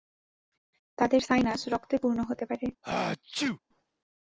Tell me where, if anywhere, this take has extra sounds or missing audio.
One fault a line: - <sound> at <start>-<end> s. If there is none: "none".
- sneeze at 2.8-3.6 s